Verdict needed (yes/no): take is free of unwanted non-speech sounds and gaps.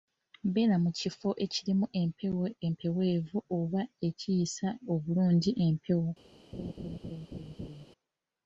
no